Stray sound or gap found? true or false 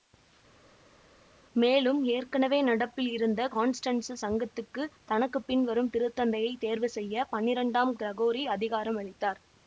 false